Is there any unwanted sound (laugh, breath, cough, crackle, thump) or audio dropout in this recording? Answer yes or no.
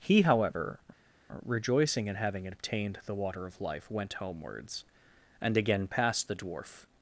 no